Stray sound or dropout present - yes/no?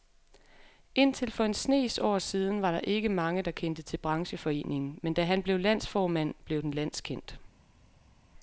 no